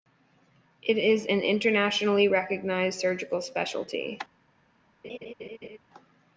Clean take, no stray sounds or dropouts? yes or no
no